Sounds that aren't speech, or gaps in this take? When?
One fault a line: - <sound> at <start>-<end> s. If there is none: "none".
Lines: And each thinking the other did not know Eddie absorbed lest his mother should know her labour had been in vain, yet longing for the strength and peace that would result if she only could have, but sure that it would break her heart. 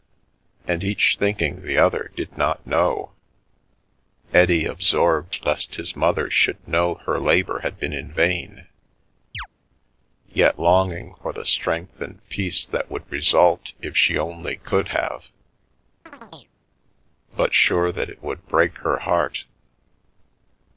- chirp at 9.3-9.5 s
- chirp at 16.1-16.5 s